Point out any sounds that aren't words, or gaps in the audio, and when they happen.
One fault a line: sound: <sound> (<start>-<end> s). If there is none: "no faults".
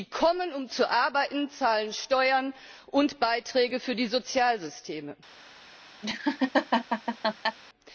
sound: laugh (6.0-7.6 s)